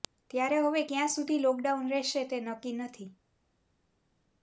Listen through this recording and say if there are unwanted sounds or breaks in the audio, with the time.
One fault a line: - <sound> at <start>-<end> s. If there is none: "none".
none